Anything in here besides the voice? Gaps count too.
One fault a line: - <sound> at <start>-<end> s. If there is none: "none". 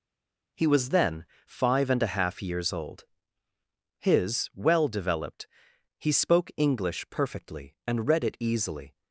none